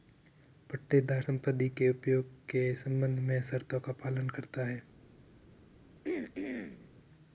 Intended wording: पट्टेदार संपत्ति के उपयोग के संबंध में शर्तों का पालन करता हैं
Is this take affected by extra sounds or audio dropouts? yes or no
yes